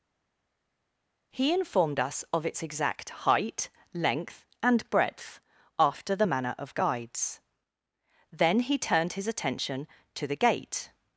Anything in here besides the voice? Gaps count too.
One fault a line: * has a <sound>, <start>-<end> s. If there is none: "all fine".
all fine